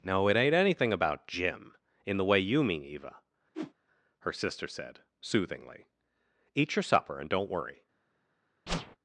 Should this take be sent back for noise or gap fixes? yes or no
yes